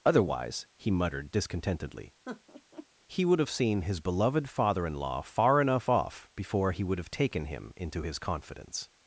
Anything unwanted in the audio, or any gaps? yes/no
yes